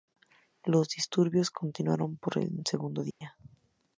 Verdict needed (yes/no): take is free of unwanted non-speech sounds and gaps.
no